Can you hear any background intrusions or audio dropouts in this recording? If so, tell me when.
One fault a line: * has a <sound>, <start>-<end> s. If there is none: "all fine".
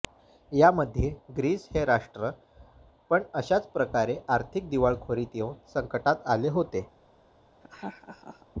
* has a laugh, 7.6-8.5 s